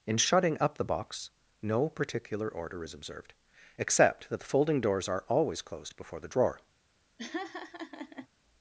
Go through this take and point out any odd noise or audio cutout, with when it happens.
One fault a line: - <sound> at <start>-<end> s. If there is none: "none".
- laugh at 7.2-8.3 s